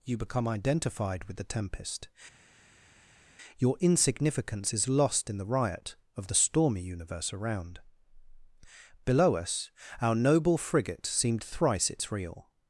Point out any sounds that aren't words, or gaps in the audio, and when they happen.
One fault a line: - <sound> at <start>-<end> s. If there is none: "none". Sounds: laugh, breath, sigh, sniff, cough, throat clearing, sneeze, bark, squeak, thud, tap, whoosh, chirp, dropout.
none